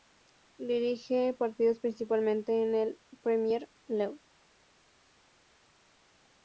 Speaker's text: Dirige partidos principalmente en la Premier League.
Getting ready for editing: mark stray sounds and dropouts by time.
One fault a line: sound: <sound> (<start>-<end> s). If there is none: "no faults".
no faults